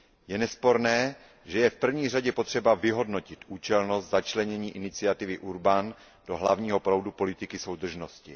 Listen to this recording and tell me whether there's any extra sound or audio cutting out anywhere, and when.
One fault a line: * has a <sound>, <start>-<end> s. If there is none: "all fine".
all fine